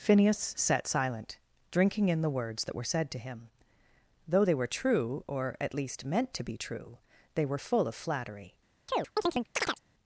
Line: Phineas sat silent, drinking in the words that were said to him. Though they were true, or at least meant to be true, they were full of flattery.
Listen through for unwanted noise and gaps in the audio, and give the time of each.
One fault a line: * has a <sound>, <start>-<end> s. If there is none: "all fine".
* has a chirp, 8.9-9.8 s